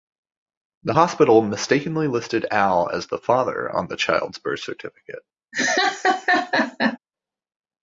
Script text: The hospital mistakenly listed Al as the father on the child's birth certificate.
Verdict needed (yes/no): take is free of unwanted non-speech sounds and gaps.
no